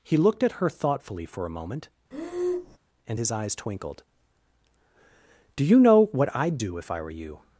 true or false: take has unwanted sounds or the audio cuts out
true